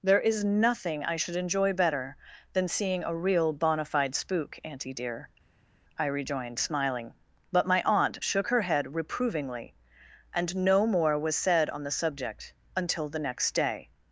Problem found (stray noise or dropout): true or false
false